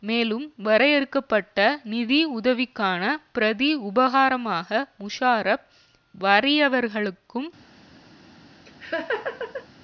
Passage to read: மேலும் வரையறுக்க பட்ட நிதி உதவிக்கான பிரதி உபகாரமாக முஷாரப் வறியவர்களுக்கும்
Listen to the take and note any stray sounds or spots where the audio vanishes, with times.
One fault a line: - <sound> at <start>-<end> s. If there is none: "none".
- laugh at 8.7-9.7 s